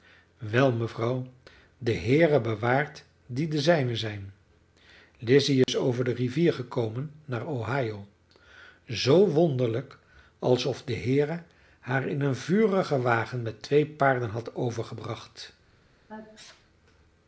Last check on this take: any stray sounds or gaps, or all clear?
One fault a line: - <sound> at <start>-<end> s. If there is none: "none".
- dropout at 5.6-5.7 s
- sneeze at 16.1-16.7 s